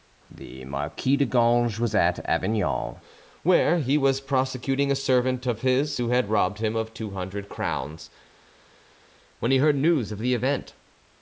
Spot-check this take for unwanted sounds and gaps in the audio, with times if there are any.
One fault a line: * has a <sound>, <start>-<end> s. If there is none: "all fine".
all fine